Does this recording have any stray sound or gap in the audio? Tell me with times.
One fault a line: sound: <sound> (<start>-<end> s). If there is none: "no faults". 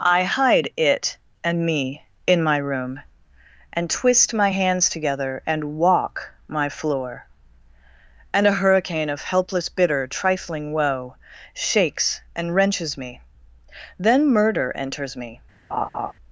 sound: laugh (15.7-16.1 s)